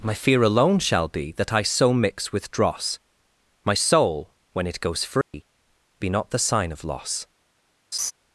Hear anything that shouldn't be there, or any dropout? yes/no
yes